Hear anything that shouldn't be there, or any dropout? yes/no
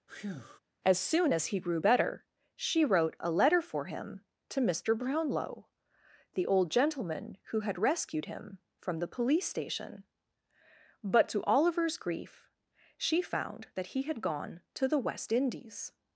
yes